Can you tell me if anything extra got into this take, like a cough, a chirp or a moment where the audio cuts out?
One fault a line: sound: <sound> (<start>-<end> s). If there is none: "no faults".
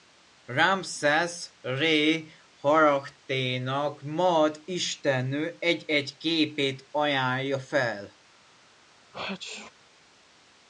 sound: sneeze (9.1-9.7 s)